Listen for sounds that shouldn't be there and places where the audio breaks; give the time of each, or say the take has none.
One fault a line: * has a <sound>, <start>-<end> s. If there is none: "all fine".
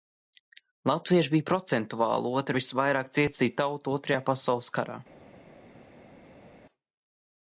all fine